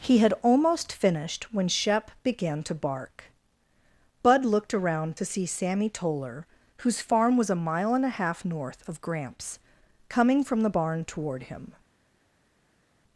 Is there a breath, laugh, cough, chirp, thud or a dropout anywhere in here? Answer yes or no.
no